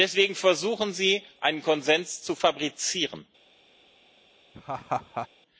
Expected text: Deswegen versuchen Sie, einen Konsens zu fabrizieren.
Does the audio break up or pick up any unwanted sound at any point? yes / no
yes